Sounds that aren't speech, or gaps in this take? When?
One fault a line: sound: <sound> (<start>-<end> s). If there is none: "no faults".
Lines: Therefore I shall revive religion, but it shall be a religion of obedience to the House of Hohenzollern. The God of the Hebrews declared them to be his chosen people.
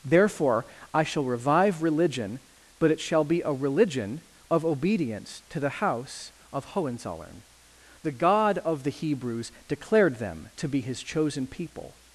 no faults